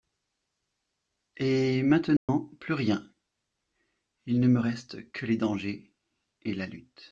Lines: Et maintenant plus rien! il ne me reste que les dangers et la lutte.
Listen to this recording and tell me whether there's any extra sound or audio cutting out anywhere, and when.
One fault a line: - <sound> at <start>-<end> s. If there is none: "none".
- dropout at 2.2-2.3 s